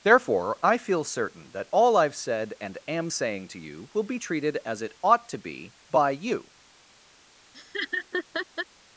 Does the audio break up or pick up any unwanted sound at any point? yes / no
yes